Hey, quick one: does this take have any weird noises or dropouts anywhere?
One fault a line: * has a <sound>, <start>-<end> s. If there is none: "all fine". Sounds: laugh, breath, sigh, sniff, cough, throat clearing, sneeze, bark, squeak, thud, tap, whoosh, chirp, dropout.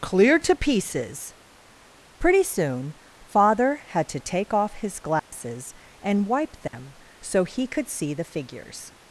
* has a dropout, 5.2-5.3 s
* has a dropout, 6.7-6.7 s